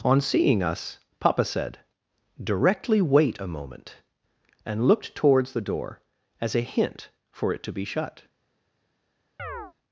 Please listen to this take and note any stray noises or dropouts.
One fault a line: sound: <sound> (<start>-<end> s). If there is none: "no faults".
sound: chirp (9.4-9.7 s)